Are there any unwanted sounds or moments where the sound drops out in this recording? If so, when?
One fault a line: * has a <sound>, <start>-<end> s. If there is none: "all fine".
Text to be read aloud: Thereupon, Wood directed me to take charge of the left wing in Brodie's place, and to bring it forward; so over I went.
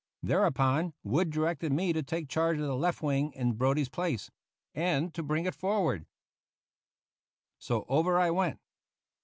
all fine